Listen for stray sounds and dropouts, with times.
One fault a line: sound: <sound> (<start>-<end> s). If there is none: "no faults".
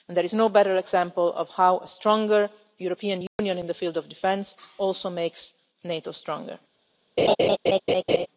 sound: dropout (3.3-3.4 s)
sound: laugh (7.2-8.3 s)